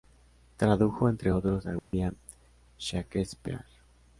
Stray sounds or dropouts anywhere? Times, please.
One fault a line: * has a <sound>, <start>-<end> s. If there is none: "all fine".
* has a dropout, 1.8-1.9 s